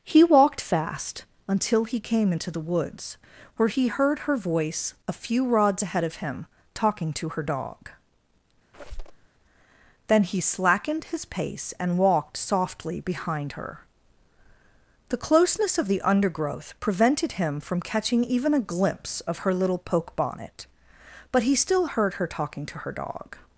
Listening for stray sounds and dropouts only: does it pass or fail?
fail